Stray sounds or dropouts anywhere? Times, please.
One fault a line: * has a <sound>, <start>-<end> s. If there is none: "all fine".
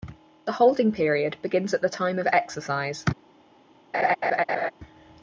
* has a laugh, 3.9-4.7 s